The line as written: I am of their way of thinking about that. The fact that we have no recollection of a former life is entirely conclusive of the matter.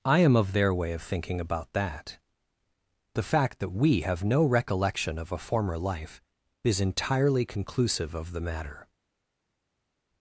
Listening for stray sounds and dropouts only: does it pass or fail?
pass